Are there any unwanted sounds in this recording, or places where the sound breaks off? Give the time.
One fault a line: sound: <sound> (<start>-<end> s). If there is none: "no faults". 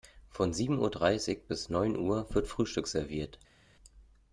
no faults